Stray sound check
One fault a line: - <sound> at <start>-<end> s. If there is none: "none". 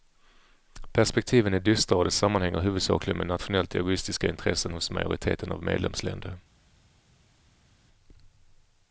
none